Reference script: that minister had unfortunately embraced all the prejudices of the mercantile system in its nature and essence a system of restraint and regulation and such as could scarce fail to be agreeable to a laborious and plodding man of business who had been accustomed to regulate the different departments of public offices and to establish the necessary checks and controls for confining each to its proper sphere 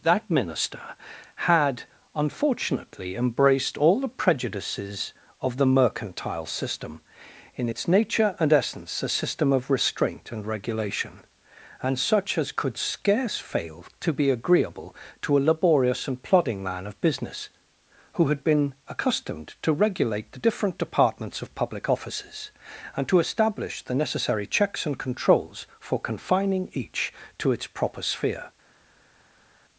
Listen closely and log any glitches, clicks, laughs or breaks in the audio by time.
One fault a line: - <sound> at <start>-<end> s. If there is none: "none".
none